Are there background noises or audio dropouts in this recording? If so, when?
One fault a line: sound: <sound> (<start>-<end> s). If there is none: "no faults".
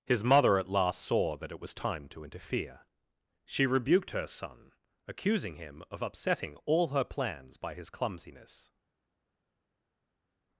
no faults